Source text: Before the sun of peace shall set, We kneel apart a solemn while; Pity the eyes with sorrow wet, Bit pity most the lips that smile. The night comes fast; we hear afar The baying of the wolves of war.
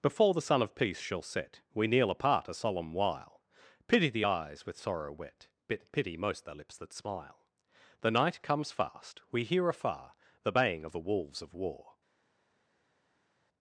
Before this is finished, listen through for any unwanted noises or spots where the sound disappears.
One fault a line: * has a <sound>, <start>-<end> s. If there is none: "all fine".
all fine